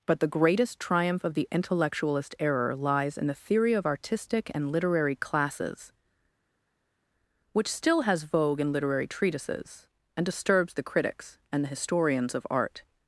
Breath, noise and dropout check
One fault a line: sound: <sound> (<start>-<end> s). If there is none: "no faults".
no faults